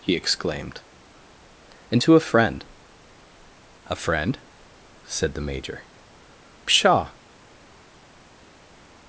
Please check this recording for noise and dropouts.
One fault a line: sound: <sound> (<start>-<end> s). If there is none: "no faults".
no faults